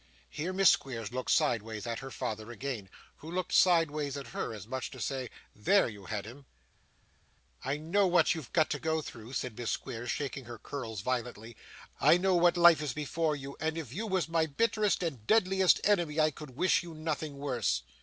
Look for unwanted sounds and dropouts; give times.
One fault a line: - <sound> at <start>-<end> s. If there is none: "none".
none